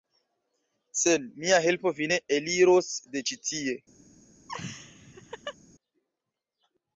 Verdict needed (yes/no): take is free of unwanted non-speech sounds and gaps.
no